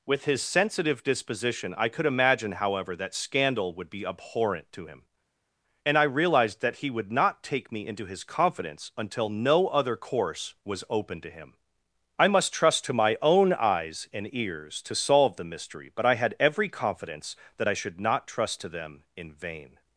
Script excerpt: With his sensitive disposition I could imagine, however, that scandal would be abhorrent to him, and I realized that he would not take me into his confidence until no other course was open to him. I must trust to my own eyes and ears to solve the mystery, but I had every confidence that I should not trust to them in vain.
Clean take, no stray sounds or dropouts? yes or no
yes